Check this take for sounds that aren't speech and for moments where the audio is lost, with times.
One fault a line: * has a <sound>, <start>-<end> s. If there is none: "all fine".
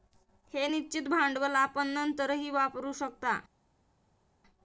all fine